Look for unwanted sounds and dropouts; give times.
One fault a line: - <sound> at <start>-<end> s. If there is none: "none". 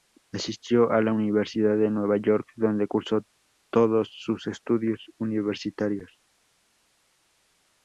none